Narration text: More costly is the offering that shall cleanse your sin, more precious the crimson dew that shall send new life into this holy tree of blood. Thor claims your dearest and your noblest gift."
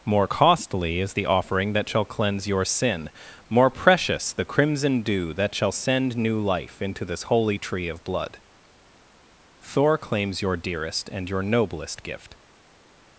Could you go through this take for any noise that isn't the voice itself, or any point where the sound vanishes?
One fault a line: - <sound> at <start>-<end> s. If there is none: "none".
none